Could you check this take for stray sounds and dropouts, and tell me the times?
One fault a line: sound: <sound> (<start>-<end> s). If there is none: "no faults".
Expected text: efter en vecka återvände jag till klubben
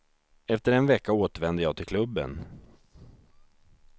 no faults